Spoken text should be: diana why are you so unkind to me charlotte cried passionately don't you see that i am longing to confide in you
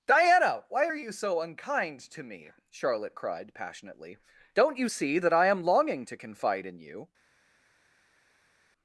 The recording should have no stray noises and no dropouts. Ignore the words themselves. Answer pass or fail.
pass